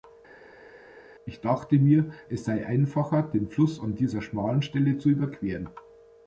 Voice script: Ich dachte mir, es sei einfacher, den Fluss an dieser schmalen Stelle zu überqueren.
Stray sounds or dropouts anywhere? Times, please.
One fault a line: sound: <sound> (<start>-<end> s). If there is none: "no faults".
no faults